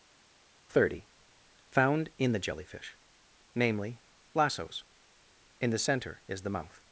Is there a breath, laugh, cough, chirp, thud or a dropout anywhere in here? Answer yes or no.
no